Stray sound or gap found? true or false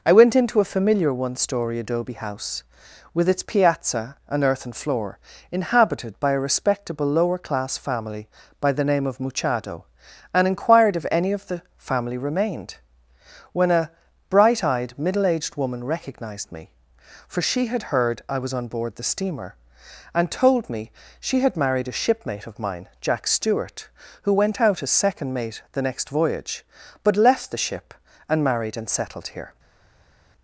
false